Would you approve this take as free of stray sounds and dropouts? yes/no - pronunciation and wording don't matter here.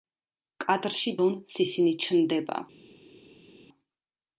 yes